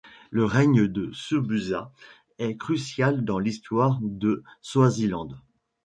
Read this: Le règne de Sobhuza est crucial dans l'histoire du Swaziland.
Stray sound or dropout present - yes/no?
no